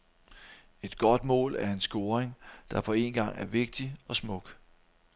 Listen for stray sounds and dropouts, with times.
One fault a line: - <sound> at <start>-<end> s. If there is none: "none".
none